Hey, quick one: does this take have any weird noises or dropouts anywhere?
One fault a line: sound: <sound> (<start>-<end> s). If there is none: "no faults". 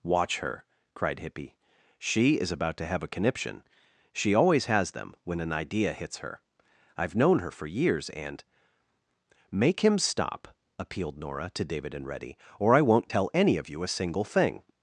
no faults